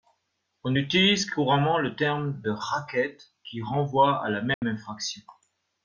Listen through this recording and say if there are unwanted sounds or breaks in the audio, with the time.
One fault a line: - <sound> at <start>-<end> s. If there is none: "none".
- dropout at 4.5-4.6 s